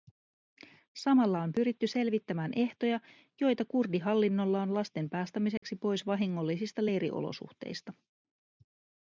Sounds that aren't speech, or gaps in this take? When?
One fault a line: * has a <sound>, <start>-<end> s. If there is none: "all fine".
* has a dropout, 5.6-5.6 s